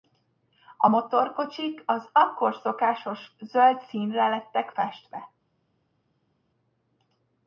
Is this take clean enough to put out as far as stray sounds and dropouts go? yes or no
yes